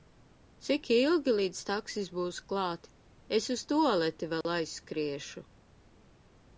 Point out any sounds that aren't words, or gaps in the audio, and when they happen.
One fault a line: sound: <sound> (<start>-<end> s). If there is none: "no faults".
sound: dropout (4.4-4.4 s)